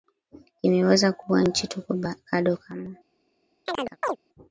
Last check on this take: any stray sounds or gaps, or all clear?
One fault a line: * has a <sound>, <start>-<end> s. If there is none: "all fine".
* has a chirp, 3.7-4.2 s